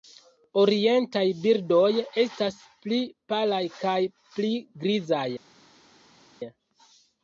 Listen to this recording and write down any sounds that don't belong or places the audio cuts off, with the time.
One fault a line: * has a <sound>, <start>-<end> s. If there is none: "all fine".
all fine